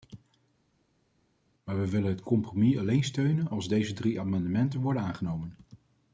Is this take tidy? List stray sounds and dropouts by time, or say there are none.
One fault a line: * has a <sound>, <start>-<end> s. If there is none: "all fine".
all fine